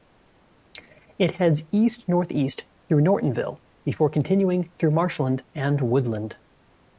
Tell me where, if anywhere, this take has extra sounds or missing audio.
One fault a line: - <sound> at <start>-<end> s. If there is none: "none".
none